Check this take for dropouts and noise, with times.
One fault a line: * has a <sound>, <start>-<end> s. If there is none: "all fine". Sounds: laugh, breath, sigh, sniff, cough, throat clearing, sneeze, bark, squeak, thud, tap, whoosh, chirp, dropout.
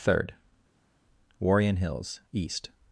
all fine